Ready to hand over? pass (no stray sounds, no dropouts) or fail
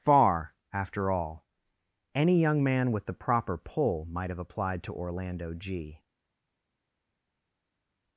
pass